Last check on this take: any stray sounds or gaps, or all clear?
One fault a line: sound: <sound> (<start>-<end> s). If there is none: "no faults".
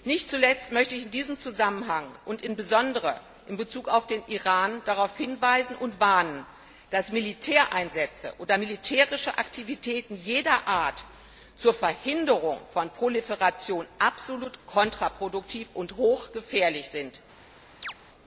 sound: chirp (17.8-17.9 s)